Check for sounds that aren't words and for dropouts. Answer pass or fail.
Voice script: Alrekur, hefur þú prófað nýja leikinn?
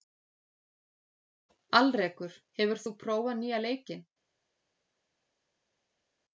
pass